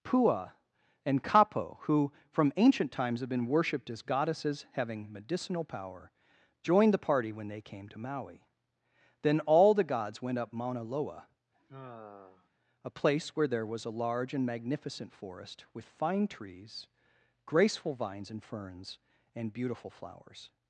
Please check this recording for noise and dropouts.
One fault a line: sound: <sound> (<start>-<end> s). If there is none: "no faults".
sound: sigh (11.5-12.5 s)